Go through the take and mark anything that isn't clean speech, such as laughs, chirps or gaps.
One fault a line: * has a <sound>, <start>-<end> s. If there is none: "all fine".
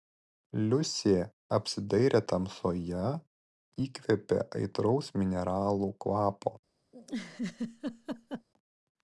* has a laugh, 6.9-8.5 s